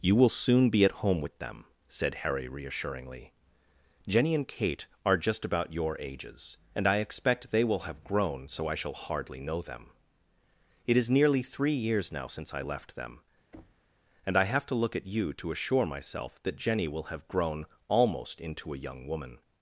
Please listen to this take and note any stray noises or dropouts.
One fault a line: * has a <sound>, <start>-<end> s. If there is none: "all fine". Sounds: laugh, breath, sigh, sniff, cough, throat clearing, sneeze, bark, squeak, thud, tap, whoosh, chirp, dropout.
* has a thud, 13.5-13.9 s